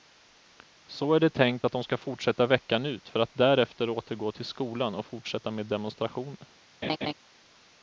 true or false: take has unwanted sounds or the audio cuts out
true